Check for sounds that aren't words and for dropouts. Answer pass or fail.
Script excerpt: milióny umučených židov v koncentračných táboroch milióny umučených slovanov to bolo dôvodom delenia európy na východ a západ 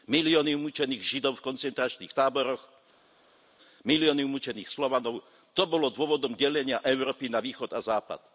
pass